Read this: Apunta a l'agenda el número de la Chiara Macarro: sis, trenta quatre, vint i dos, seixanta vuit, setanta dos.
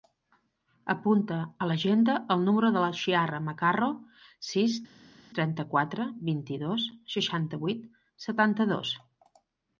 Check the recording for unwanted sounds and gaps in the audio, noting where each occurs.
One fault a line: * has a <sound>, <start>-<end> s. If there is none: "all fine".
all fine